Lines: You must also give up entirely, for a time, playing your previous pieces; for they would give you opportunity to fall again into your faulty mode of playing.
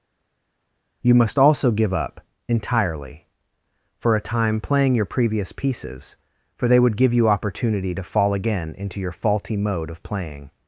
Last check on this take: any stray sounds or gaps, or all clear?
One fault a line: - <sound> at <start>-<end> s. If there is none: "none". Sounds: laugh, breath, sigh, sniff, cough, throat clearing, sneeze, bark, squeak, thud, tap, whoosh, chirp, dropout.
none